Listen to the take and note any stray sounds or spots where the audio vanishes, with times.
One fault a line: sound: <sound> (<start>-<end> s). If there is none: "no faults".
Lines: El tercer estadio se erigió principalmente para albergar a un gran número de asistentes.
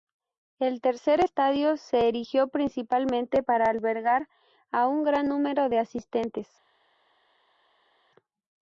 no faults